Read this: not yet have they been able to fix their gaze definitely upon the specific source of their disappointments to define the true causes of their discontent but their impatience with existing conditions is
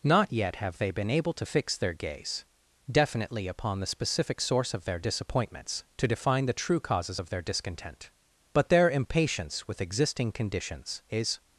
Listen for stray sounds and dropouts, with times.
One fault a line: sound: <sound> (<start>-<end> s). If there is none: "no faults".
no faults